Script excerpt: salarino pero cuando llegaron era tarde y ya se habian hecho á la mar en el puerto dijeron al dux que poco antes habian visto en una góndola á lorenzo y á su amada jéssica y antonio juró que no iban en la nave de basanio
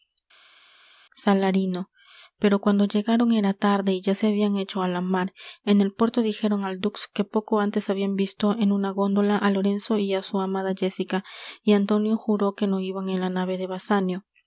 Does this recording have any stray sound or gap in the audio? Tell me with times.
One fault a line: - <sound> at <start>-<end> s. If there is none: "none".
none